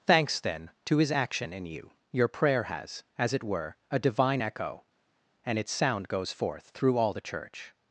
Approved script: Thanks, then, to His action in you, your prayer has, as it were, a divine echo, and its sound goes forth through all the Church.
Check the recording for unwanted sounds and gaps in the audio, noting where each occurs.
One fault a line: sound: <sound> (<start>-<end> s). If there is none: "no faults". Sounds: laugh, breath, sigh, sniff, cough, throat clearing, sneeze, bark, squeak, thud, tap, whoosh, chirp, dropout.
no faults